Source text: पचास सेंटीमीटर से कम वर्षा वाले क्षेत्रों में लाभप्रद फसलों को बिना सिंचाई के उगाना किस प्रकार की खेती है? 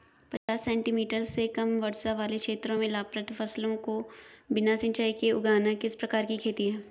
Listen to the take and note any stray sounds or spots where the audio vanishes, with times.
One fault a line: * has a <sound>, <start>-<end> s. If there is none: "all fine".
* has a dropout, 0.4-0.5 s